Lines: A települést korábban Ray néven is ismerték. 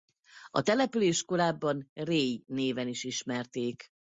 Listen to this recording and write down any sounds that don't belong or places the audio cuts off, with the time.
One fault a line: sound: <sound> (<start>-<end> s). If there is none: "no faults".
no faults